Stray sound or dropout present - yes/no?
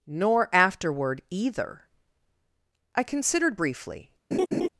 yes